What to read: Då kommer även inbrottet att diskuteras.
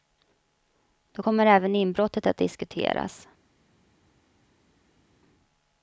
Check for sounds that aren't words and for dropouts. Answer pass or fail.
pass